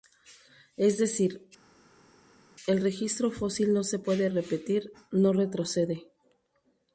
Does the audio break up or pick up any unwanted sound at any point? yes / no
no